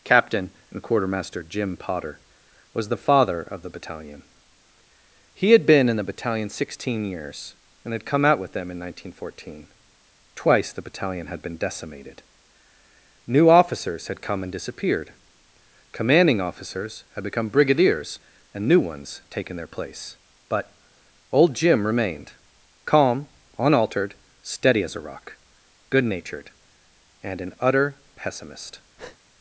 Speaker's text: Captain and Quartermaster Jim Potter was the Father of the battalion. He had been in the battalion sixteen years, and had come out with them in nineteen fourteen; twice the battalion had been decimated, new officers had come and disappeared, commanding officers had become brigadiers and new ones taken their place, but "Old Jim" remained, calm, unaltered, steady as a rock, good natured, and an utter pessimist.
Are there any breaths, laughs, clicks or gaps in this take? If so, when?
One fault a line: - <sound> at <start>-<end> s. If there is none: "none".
- breath at 29.0-29.2 s